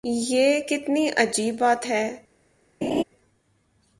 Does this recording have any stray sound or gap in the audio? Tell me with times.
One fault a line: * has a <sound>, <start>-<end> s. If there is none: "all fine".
* has a laugh, 2.8-3.0 s